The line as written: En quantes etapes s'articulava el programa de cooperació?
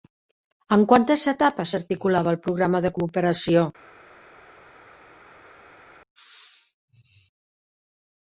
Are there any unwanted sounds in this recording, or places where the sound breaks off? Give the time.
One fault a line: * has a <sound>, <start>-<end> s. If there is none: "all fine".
all fine